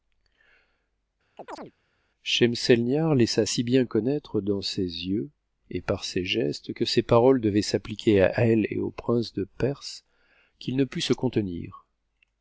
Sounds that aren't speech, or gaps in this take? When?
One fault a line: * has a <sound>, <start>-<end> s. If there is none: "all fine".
* has a chirp, 1.4-1.7 s